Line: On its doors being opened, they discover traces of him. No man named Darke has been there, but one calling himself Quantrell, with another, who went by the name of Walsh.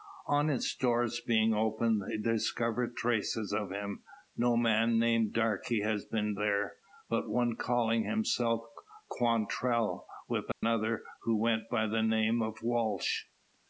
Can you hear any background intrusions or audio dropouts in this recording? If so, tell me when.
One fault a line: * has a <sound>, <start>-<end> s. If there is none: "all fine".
* has a dropout, 10.5-10.6 s